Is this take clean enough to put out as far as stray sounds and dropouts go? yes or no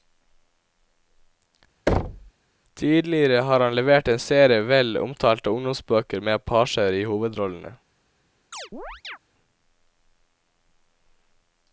no